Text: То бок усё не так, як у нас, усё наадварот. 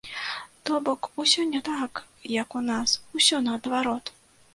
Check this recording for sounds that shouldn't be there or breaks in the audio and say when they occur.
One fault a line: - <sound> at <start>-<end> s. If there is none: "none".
none